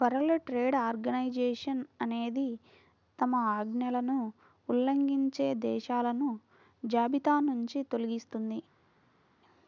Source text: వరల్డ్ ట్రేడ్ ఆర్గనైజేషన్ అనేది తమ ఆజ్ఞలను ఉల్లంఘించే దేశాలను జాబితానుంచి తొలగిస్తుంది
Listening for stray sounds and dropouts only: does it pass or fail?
pass